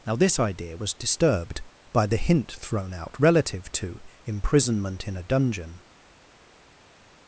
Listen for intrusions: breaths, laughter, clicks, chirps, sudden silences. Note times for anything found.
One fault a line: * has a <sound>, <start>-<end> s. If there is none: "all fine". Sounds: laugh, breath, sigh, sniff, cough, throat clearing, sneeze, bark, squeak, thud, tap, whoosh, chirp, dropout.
all fine